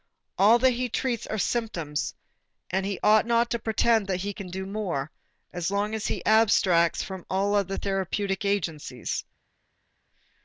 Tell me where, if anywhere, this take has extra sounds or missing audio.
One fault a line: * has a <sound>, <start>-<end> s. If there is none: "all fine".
all fine